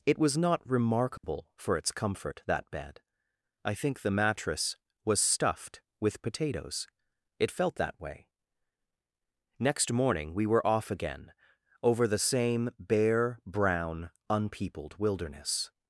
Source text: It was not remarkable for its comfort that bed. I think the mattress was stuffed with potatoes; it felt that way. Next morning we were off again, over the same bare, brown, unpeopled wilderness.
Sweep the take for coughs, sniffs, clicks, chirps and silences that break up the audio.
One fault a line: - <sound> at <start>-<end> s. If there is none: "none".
- dropout at 1.2-1.2 s